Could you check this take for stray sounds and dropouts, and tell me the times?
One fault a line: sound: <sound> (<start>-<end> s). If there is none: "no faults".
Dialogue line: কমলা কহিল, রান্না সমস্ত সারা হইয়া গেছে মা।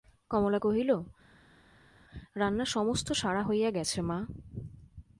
no faults